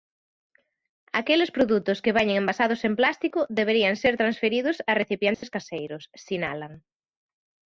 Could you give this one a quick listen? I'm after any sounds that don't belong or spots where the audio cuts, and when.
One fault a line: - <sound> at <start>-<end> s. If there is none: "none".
- dropout at 5.3-5.4 s